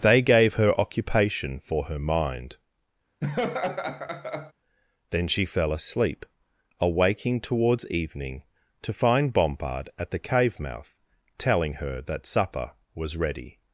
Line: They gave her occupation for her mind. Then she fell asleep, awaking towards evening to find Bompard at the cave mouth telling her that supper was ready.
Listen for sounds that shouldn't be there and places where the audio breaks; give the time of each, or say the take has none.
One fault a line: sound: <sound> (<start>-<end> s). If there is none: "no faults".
sound: laugh (3.2-4.5 s)